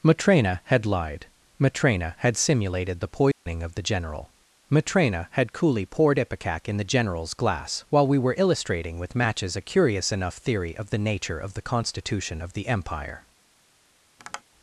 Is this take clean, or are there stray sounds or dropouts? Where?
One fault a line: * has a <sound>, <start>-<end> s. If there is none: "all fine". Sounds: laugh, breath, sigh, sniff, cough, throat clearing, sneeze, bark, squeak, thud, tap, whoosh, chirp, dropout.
* has a dropout, 3.3-3.5 s
* has a tap, 14.2-14.4 s